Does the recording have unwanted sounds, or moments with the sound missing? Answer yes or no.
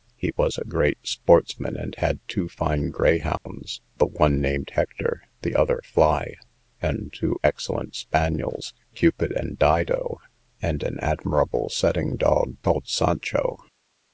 yes